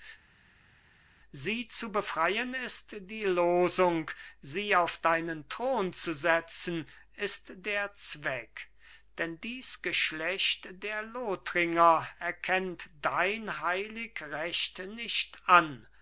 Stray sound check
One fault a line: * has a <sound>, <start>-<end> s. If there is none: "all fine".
all fine